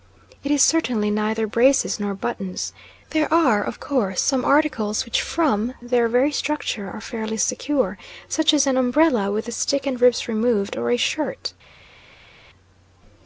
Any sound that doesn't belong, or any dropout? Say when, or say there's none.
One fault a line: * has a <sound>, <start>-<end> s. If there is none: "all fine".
all fine